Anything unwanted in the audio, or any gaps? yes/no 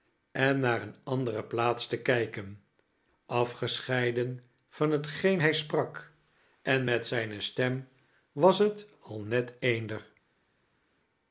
no